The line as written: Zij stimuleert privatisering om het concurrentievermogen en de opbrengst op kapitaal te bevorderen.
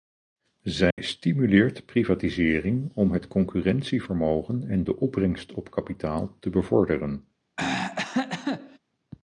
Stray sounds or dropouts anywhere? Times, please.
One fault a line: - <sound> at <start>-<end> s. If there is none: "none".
- dropout at 0.9-1.0 s
- throat clearing at 7.6-8.8 s